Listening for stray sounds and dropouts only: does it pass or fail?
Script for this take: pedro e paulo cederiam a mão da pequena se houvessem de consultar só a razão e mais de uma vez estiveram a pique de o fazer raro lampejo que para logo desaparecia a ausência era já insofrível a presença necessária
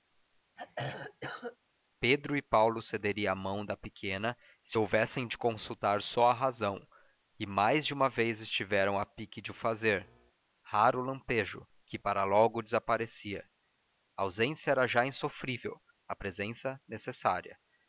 fail